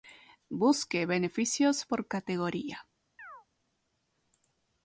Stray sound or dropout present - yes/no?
yes